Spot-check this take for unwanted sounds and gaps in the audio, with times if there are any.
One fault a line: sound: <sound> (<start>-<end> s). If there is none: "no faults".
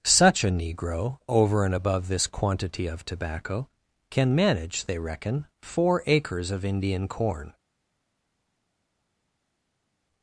no faults